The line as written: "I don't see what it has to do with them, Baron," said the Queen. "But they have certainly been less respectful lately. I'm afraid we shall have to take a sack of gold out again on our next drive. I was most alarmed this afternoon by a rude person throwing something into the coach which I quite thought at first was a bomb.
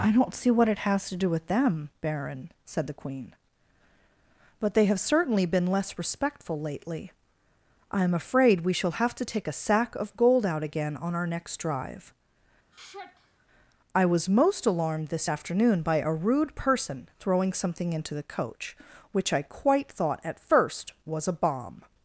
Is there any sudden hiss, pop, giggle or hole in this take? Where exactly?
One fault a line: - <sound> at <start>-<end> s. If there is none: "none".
- sigh at 12.7-13.5 s